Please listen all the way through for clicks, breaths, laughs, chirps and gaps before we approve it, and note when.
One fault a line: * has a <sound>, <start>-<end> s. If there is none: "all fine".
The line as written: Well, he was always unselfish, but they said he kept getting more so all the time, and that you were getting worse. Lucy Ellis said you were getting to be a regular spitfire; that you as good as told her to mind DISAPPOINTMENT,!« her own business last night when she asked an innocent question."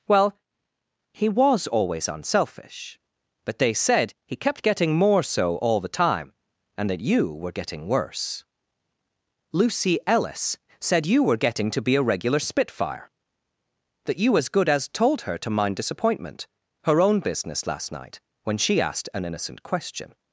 all fine